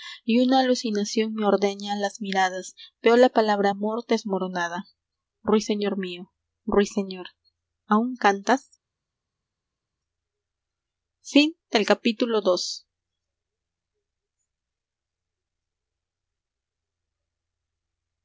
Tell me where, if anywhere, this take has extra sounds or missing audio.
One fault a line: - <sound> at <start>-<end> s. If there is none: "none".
none